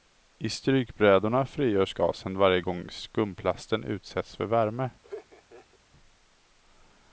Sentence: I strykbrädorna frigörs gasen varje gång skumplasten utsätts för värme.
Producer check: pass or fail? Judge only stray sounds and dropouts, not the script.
fail